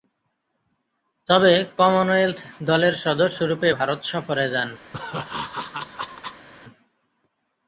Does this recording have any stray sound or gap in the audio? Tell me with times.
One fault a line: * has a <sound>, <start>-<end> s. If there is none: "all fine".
* has a laugh, 4.9-6.5 s